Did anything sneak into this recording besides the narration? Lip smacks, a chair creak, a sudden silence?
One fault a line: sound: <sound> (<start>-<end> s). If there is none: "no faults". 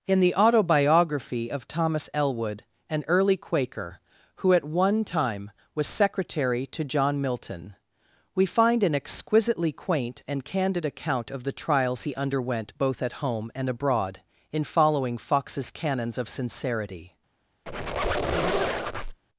sound: squeak (17.7-19.2 s)